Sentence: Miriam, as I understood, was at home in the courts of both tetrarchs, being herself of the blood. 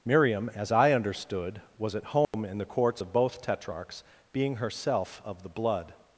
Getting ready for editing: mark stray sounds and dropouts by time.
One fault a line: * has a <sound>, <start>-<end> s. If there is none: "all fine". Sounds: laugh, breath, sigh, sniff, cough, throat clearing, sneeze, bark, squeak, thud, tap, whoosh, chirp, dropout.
* has a dropout, 2.2-2.3 s